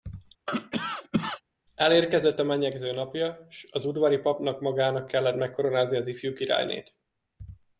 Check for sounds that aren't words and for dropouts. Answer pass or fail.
fail